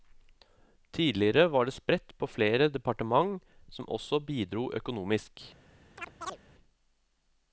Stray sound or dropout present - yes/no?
yes